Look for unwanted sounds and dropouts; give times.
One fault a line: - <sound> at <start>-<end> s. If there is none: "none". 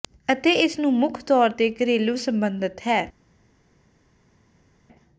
none